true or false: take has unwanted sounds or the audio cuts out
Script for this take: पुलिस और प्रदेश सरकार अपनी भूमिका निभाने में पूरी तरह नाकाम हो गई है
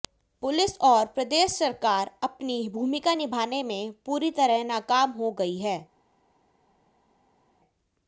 false